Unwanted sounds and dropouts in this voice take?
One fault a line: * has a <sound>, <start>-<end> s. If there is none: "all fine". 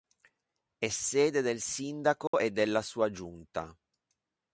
* has a dropout, 2.3-2.3 s